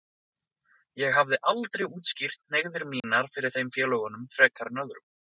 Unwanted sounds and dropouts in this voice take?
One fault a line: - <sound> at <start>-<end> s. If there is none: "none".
- dropout at 3.0-3.0 s